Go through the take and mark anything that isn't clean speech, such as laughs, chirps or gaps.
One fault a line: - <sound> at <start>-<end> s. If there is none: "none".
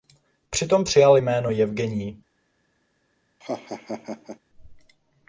- laugh at 3.4-4.4 s